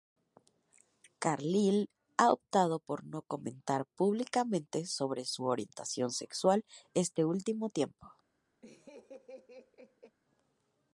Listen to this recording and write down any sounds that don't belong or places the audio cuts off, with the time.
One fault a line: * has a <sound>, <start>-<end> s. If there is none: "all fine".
* has a laugh, 8.6-10.2 s